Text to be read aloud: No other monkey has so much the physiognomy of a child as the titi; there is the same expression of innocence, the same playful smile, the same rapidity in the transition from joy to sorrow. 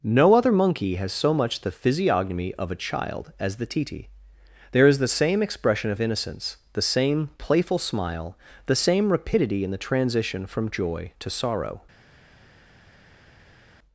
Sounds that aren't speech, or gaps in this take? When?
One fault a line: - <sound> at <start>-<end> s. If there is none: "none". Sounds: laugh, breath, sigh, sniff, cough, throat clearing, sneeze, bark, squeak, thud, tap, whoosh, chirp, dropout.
none